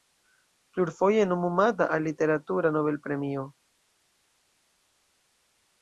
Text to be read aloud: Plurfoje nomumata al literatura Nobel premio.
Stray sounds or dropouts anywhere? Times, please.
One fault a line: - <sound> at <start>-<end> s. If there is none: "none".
none